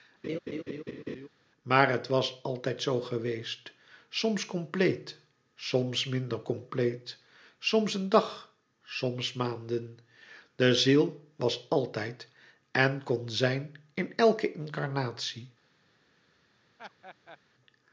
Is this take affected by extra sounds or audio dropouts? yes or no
yes